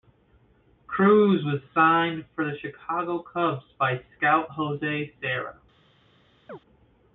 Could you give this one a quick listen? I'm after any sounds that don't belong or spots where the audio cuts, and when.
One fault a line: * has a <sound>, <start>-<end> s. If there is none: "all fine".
* has a chirp, 6.5-6.6 s